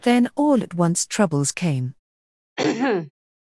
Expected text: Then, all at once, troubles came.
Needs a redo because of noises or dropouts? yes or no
yes